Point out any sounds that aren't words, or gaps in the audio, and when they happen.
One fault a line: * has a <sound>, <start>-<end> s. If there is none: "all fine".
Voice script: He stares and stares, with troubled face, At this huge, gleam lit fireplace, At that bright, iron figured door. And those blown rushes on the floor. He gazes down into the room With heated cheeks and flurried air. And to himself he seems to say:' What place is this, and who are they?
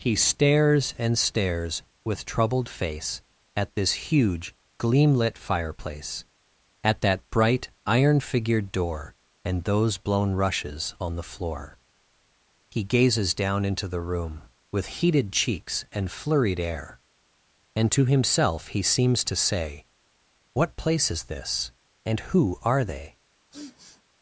* has a sniff, 23.5-24.0 s